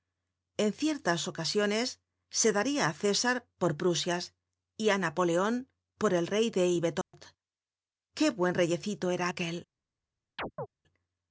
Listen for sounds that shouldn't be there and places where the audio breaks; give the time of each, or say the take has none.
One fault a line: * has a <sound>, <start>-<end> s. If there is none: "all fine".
* has a dropout, 7.0-7.1 s
* has a chirp, 10.4-10.7 s